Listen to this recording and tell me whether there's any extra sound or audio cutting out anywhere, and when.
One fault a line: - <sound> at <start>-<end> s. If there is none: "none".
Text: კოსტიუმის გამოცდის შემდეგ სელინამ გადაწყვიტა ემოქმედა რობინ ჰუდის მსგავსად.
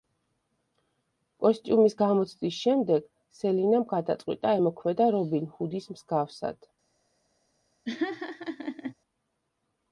- laugh at 7.9-8.9 s